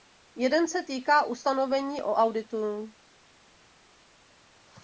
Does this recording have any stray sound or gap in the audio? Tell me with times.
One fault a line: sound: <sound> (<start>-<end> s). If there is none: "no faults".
no faults